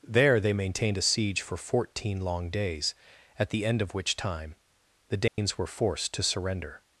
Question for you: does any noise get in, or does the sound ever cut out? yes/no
yes